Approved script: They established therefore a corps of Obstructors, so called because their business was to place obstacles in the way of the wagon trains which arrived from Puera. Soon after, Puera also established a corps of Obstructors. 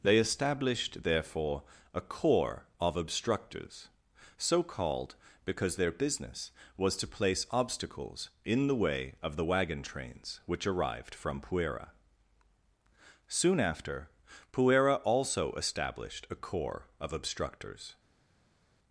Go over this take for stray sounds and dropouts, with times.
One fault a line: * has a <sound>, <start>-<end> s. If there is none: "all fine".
all fine